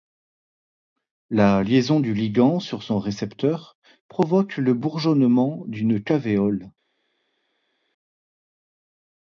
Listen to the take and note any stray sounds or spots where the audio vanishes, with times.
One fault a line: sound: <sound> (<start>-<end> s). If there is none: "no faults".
no faults